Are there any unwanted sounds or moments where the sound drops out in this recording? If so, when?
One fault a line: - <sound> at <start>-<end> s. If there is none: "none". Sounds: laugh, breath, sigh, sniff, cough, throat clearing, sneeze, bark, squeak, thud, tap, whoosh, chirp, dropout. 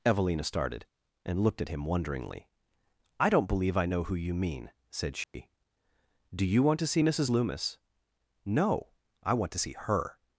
- dropout at 5.2-5.3 s